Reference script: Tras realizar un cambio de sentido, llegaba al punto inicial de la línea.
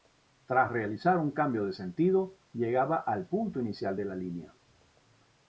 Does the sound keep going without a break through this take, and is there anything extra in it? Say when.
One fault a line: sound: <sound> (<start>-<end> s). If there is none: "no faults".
no faults